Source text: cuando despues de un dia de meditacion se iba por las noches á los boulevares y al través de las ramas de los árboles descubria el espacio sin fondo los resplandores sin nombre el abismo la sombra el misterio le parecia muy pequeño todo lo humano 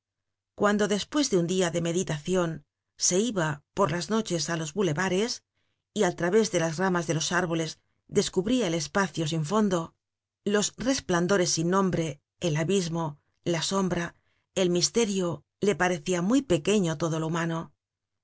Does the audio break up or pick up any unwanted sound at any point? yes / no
no